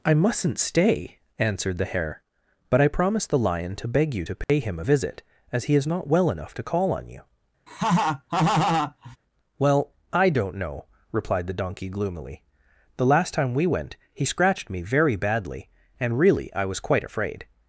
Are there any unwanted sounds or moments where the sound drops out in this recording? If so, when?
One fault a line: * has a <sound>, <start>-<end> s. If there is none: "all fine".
* has a dropout, 4.4-4.5 s
* has a laugh, 7.7-9.2 s